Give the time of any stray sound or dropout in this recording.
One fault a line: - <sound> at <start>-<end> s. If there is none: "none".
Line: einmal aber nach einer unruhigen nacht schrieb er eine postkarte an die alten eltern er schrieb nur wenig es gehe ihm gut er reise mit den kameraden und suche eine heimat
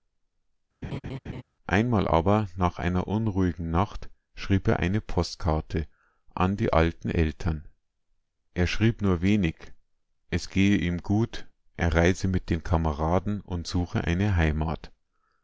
- laugh at 0.8-1.4 s